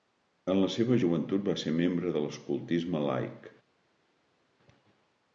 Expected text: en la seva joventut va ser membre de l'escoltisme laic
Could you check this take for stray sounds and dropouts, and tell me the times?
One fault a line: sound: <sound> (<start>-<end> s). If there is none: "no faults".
no faults